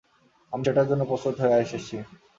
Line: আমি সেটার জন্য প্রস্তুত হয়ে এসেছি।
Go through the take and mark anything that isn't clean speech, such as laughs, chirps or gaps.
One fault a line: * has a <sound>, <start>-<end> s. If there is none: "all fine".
all fine